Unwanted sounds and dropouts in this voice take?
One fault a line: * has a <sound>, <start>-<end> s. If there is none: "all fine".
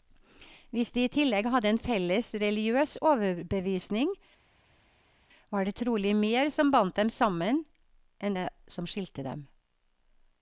all fine